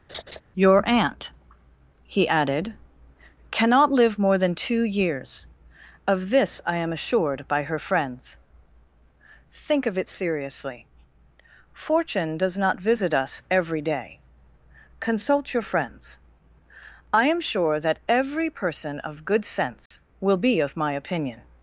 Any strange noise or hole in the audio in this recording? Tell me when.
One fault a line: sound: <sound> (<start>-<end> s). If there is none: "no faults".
sound: laugh (0.1-0.4 s)
sound: dropout (19.9-19.9 s)